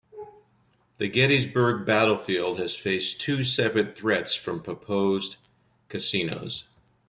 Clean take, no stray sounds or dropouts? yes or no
yes